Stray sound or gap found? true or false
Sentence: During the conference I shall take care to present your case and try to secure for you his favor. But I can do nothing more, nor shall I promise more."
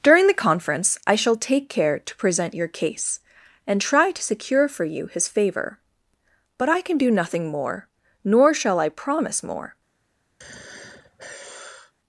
true